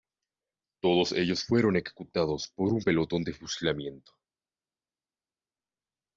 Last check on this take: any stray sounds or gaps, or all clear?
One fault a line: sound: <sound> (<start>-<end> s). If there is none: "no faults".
no faults